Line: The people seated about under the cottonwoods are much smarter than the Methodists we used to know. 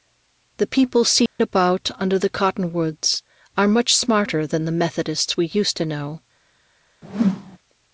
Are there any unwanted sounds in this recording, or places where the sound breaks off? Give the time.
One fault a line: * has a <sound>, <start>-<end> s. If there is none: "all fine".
* has a dropout, 1.3-1.4 s
* has a whoosh, 7.0-7.6 s